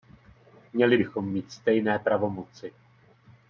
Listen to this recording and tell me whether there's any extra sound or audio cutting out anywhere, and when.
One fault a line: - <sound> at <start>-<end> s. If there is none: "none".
none